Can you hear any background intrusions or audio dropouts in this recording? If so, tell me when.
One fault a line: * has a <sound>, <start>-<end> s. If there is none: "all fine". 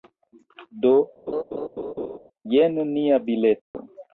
* has a laugh, 1.3-2.2 s
* has a dropout, 3.6-3.7 s